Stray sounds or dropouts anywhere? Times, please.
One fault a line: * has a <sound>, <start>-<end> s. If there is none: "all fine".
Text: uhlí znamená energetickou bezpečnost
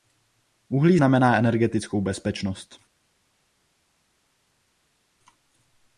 all fine